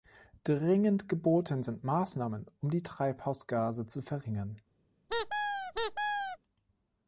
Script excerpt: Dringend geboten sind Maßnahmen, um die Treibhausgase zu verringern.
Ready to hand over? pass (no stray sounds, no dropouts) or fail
fail